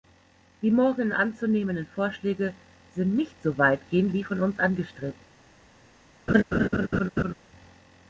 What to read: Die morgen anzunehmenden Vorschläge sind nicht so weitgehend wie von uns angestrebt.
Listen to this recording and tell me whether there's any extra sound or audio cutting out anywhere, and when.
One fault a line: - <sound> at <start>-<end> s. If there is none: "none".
- laugh at 6.3-7.3 s